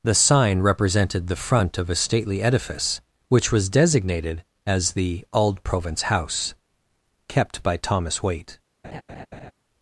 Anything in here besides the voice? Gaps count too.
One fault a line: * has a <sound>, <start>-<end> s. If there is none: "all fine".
* has a laugh, 8.8-9.5 s